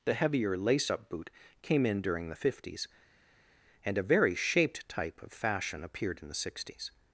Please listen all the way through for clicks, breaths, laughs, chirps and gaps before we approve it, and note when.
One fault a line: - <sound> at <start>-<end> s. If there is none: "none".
none